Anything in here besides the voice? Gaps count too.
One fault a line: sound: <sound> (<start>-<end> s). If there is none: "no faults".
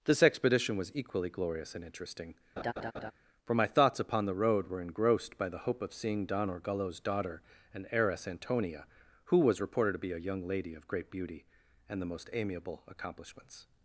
sound: laugh (2.6-3.1 s)